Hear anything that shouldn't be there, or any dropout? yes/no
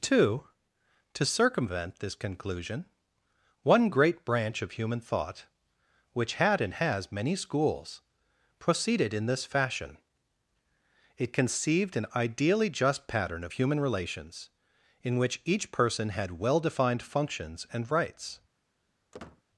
yes